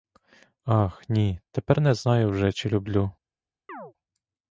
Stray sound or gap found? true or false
true